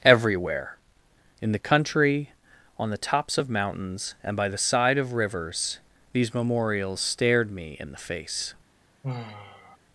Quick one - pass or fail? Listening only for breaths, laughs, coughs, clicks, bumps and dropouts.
fail